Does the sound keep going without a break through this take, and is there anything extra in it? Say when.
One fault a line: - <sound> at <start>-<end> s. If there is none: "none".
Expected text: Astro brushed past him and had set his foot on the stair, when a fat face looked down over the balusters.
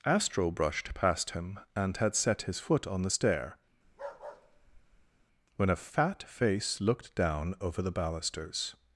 - bark at 3.8-5.3 s